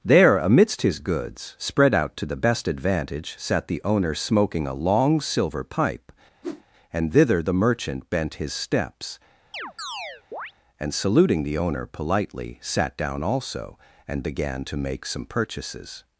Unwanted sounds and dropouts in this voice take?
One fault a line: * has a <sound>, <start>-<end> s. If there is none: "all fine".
* has a whoosh, 6.4-6.6 s
* has a chirp, 9.5-10.5 s